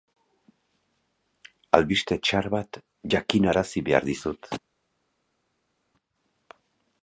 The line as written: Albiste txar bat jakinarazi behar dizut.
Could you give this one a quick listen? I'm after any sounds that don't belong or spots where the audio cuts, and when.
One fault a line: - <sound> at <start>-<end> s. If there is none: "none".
none